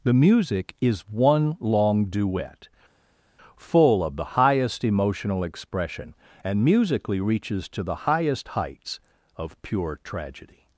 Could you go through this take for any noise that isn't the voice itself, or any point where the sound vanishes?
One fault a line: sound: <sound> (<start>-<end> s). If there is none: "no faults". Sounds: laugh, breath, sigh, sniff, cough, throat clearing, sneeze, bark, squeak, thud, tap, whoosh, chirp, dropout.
no faults